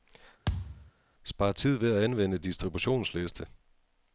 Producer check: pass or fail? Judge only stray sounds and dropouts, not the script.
fail